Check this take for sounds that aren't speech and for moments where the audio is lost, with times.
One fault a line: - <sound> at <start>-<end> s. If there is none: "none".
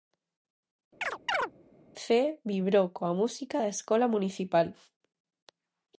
- chirp at 1.0-1.5 s